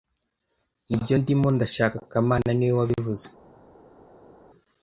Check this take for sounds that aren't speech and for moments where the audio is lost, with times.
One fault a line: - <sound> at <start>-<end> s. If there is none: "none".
none